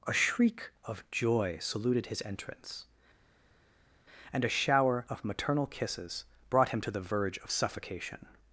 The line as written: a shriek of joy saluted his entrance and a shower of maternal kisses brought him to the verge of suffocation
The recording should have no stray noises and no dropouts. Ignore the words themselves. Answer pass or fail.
pass